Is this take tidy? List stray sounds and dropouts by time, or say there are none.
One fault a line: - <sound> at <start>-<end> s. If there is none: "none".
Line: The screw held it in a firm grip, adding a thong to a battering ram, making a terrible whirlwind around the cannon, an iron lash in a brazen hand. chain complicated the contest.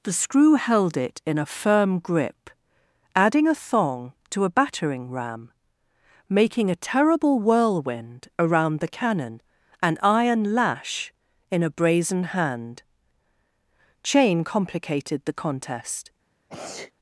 - sneeze at 16.5-16.9 s